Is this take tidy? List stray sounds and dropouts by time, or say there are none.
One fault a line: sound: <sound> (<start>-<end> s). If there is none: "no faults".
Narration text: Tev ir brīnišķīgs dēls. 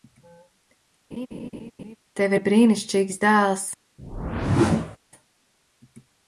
sound: laugh (1.1-2.0 s)
sound: whoosh (4.0-5.0 s)